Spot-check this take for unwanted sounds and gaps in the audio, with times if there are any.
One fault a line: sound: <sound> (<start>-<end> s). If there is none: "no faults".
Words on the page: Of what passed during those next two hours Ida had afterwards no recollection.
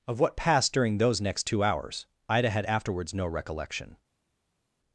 no faults